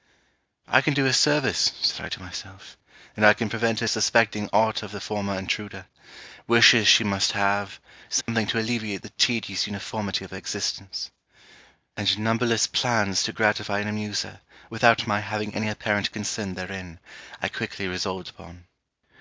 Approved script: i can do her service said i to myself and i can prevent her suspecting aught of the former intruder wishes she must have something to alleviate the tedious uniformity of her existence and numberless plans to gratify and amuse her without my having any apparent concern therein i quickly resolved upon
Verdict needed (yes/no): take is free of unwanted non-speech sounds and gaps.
no